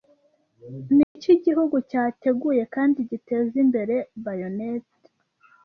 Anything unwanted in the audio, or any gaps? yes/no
yes